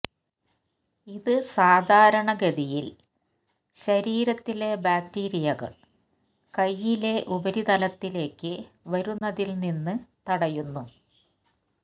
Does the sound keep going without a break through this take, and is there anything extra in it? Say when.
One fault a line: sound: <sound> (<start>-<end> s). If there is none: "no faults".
sound: dropout (9.2-9.2 s)